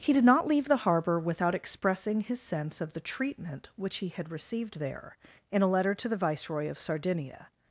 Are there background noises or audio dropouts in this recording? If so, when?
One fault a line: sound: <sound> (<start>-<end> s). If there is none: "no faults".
no faults